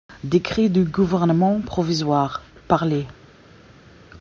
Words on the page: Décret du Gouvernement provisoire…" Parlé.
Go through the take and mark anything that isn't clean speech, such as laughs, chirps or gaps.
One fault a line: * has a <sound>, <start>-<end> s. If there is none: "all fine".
all fine